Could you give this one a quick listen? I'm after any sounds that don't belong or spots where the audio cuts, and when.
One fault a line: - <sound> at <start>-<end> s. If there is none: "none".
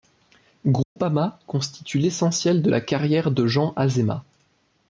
- dropout at 0.8-1.0 s